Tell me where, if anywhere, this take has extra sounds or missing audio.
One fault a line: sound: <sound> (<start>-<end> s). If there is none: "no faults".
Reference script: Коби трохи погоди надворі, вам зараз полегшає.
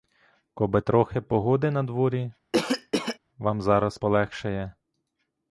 sound: cough (2.5-3.2 s)